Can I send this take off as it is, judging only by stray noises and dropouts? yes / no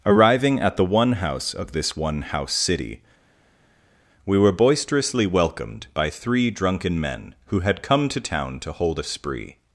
yes